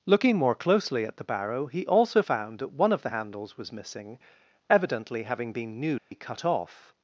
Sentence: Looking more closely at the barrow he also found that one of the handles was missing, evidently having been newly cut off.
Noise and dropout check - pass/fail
fail